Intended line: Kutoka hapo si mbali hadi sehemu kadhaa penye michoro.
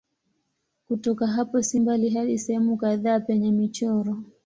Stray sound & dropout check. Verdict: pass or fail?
pass